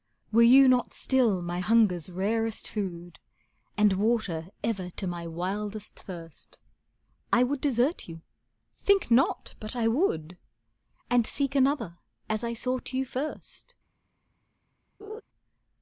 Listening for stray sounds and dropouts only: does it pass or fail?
fail